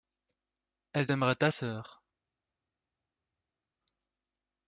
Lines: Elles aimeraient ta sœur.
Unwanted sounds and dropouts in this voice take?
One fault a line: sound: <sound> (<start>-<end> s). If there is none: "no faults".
no faults